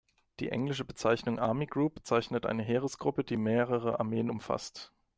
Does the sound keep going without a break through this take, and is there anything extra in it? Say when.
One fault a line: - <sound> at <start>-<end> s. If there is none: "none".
none